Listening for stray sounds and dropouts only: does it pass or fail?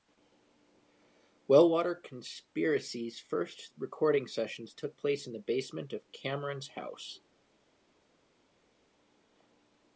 pass